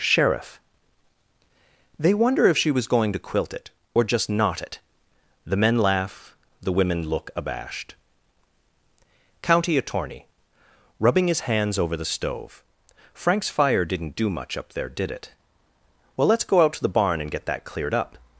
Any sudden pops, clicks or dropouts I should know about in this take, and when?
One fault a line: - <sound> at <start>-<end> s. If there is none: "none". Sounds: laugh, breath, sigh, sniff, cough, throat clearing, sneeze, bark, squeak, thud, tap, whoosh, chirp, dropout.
none